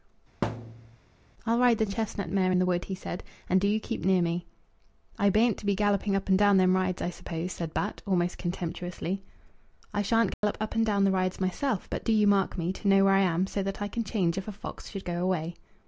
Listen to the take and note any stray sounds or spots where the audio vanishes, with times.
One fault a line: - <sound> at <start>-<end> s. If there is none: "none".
- thud at 0.4-1.0 s
- dropout at 10.3-10.4 s